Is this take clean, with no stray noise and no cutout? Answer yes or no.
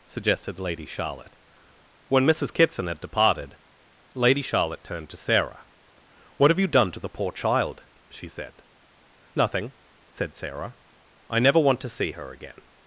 yes